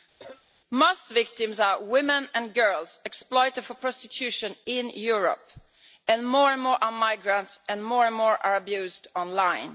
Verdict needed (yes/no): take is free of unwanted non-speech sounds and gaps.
no